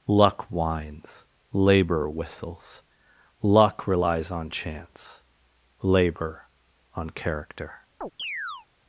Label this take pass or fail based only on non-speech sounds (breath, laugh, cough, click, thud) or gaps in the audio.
fail